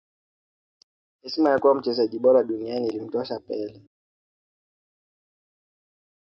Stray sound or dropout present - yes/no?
no